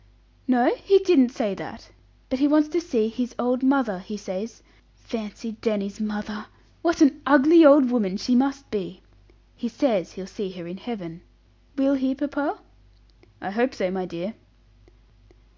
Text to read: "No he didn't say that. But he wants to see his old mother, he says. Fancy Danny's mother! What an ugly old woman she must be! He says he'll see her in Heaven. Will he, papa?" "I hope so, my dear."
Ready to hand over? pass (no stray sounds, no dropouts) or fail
pass